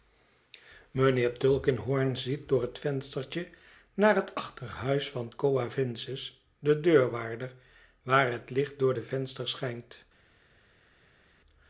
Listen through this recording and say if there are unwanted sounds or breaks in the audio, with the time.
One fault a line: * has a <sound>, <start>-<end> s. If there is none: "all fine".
all fine